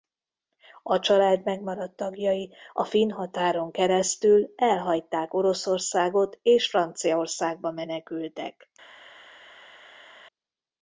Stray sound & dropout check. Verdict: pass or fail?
pass